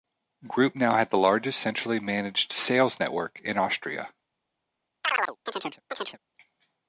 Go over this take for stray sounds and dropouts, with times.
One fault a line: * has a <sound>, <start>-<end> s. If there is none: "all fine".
* has a chirp, 5.0-6.2 s